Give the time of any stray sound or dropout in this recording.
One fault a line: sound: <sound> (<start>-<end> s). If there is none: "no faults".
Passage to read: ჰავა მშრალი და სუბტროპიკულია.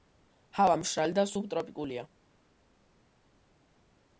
no faults